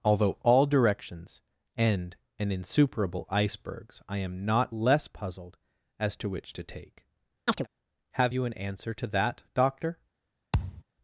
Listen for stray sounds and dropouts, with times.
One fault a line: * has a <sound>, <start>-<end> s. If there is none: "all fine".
* has a chirp, 7.5-7.7 s
* has a thud, 10.5-10.8 s